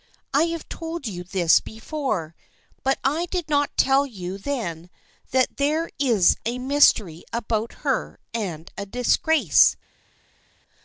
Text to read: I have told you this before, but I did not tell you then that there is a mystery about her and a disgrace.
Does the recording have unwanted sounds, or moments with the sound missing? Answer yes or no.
no